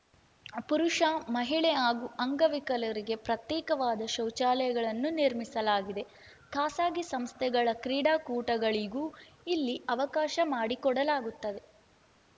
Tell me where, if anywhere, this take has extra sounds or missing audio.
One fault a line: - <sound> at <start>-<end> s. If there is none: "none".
none